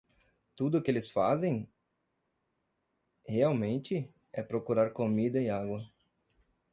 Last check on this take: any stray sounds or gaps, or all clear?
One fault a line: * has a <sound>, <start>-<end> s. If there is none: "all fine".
all fine